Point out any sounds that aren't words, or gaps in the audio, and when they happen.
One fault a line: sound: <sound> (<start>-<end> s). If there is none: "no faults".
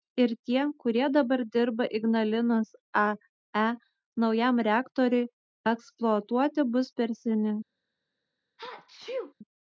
sound: sneeze (8.6-9.3 s)